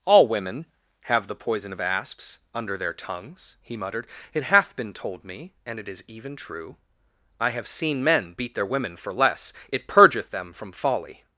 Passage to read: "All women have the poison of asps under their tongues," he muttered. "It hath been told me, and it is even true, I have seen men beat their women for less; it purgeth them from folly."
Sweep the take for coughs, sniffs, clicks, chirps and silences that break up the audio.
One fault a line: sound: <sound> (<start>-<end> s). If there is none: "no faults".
no faults